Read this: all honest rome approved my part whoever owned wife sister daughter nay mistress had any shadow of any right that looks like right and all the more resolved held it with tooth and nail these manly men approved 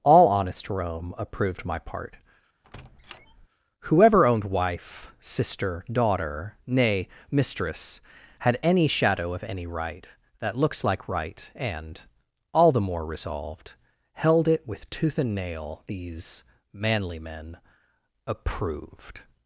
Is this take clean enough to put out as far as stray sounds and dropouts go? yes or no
no